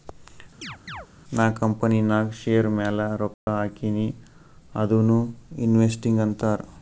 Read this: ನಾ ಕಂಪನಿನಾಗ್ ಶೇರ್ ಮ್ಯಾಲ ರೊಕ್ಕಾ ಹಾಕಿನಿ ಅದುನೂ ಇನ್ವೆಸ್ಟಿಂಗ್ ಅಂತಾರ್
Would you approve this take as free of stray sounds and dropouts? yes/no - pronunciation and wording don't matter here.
no